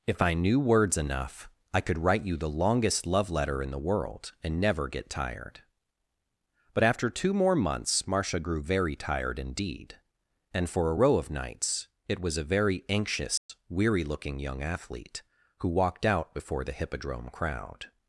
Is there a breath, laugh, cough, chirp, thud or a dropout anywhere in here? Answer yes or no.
yes